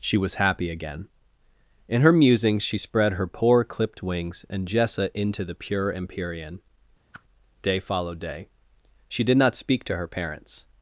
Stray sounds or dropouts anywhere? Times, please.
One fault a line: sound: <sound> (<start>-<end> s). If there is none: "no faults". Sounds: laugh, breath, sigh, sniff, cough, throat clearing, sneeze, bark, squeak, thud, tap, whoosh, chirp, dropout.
sound: whoosh (7.1-7.2 s)